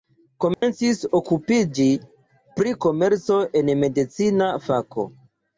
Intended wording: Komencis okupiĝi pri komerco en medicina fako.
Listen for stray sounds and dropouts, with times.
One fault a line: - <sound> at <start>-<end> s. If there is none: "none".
- dropout at 0.5-0.6 s